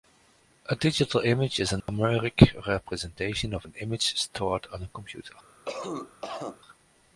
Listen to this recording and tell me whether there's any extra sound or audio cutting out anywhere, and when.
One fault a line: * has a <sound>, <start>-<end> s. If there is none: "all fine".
* has a dropout, 1.8-1.9 s
* has a cough, 5.7-6.6 s